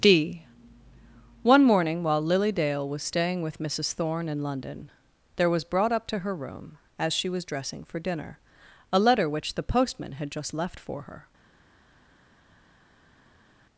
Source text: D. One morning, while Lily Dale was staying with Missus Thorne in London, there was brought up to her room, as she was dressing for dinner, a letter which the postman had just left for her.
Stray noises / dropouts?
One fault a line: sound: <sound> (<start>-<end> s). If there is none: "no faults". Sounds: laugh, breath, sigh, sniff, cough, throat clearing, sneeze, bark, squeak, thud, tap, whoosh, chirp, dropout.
no faults